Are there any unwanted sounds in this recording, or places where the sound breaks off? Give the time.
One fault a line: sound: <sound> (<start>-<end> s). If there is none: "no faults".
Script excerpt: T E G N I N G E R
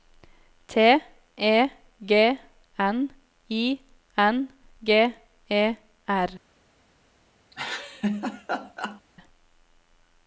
sound: laugh (7.5-9.0 s)